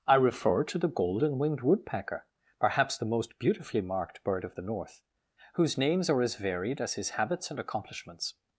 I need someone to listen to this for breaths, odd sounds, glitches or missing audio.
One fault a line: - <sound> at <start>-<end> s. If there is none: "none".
none